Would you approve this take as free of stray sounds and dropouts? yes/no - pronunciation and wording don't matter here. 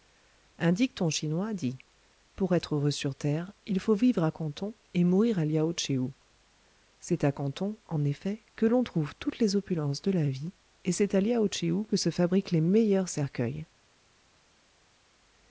yes